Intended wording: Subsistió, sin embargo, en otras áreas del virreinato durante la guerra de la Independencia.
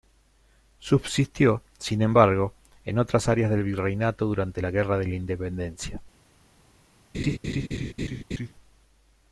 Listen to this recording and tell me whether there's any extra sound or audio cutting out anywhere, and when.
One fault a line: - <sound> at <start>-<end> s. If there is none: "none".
- laugh at 7.1-8.5 s